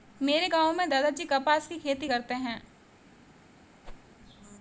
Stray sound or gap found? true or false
true